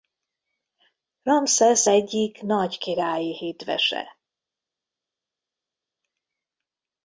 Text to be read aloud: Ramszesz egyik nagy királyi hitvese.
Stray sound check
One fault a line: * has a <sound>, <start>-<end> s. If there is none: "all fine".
all fine